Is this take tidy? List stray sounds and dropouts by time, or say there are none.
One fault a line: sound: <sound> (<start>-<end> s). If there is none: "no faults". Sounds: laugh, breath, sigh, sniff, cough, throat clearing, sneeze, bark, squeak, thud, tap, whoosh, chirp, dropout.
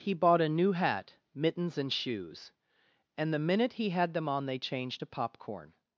no faults